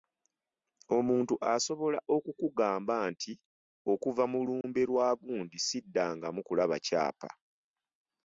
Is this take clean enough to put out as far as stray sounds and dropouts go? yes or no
no